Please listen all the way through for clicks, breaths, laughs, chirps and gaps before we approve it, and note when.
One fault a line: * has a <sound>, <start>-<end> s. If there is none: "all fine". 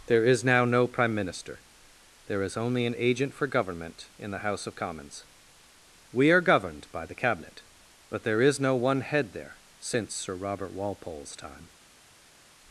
all fine